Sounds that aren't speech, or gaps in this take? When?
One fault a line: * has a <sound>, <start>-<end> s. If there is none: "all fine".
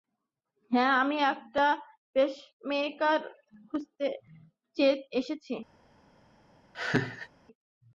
* has a laugh, 6.7-7.3 s